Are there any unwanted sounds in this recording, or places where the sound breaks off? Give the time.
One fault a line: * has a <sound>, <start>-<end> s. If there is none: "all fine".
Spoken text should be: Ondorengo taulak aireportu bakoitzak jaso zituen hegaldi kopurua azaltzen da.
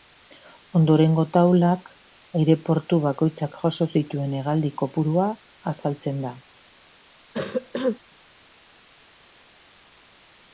* has a cough, 7.3-8.0 s